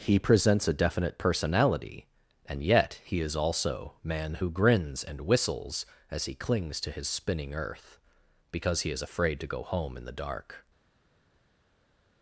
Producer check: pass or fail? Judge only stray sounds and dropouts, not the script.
pass